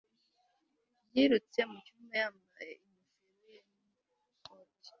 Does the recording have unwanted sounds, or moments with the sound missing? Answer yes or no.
no